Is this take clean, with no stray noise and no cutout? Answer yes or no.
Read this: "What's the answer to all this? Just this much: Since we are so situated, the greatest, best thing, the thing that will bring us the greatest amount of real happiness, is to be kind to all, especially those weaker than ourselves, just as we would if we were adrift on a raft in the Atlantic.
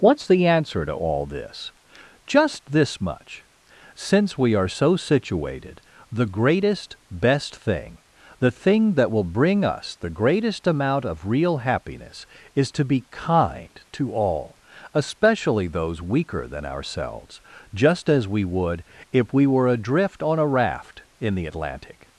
yes